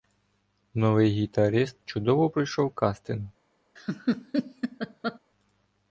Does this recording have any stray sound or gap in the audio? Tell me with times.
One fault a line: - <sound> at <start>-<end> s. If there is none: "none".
- laugh at 3.8-5.2 s